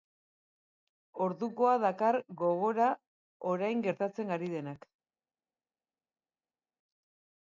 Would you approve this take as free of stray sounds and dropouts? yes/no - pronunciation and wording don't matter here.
yes